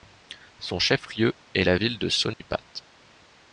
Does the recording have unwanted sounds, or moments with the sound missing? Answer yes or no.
yes